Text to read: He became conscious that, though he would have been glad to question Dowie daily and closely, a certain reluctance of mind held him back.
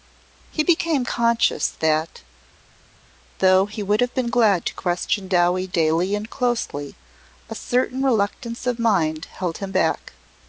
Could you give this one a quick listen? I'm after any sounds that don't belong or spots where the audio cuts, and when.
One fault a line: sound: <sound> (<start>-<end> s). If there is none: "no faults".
no faults